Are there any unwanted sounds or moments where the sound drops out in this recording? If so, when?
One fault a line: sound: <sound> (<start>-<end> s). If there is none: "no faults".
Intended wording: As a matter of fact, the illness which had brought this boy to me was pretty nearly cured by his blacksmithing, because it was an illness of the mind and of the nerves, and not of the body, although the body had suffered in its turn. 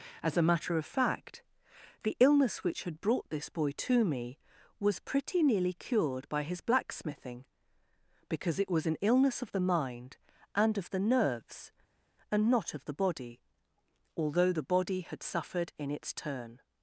no faults